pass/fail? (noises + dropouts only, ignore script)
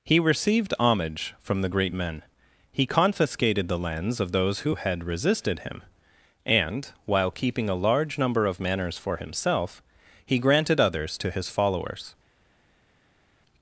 pass